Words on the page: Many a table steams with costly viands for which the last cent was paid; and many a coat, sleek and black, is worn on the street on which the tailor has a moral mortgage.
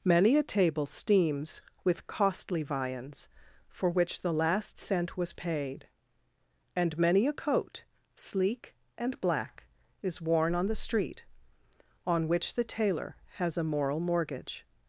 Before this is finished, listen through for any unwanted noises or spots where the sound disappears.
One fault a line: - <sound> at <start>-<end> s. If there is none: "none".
none